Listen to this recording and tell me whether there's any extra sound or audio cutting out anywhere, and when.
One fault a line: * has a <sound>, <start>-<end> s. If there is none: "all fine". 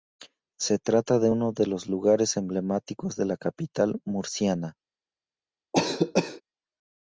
* has a cough, 5.7-6.4 s